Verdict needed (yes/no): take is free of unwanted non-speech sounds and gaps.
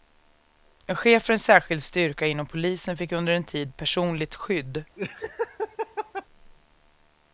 no